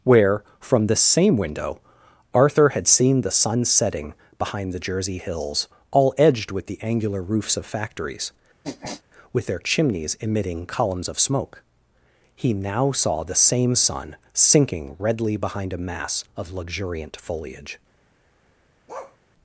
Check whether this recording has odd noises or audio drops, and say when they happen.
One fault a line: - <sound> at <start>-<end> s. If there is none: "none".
- sniff at 8.6-9.0 s
- bark at 18.9-19.2 s